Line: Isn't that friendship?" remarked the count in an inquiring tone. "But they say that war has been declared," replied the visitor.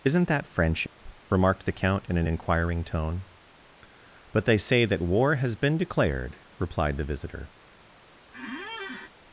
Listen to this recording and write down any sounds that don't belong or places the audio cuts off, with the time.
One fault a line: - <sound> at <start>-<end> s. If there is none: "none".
- dropout at 0.9-1.0 s
- squeak at 8.3-9.1 s